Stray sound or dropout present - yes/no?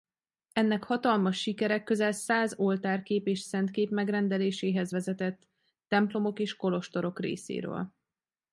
no